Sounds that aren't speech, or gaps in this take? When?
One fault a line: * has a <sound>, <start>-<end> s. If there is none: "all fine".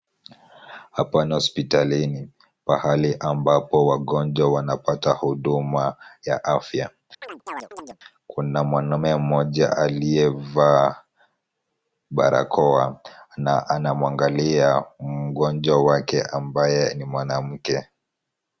* has a chirp, 7.2-8.0 s